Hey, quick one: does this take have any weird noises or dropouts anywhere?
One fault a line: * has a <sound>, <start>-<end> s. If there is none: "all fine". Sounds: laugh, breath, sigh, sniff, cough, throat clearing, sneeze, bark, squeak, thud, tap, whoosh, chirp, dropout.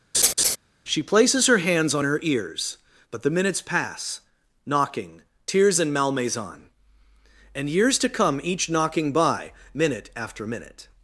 * has a laugh, 0.1-0.6 s